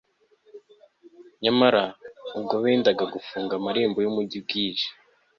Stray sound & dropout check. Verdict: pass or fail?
pass